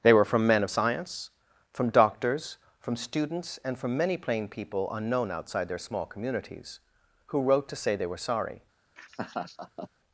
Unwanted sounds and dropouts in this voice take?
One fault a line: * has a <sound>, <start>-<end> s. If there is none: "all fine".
* has a laugh, 9.0-9.9 s